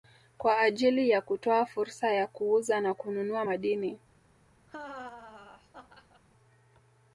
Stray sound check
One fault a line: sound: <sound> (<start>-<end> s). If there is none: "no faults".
sound: laugh (4.7-6.2 s)